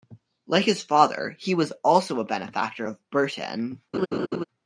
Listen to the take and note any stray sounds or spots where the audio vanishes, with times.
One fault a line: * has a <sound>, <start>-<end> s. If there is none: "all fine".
* has a laugh, 3.9-4.4 s